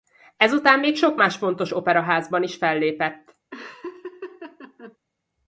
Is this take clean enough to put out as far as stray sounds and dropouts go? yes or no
no